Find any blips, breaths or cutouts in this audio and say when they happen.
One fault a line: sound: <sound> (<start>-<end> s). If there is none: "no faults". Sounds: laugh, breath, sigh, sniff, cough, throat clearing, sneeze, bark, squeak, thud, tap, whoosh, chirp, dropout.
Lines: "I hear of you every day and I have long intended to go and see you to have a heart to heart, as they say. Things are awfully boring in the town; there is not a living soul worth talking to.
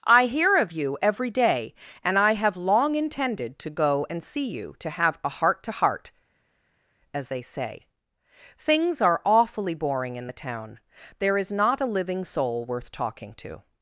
no faults